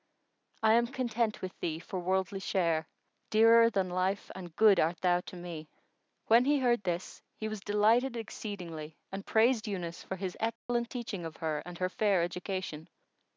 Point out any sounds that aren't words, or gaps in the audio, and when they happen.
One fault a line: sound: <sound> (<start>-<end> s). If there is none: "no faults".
sound: dropout (10.6-10.7 s)